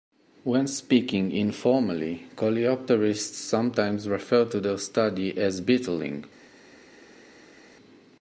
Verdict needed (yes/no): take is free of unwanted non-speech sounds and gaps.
yes